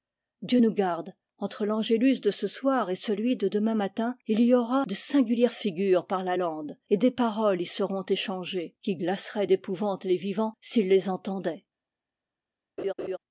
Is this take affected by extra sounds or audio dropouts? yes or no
yes